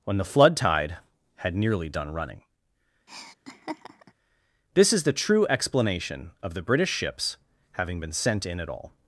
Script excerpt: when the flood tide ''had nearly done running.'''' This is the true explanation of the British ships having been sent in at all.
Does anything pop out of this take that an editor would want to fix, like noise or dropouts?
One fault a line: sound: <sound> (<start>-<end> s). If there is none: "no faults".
sound: laugh (3.1-4.1 s)